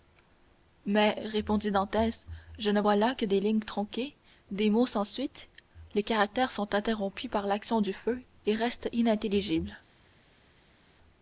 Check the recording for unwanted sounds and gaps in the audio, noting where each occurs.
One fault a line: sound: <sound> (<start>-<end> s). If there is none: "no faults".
no faults